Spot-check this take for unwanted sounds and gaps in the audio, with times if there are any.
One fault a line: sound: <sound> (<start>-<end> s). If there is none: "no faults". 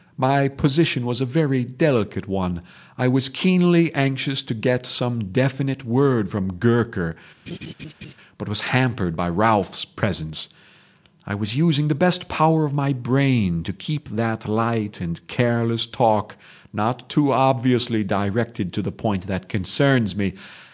sound: laugh (7.5-8.1 s)